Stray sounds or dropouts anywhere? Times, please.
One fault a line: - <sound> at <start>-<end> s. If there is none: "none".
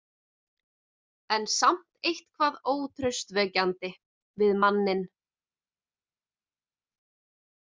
none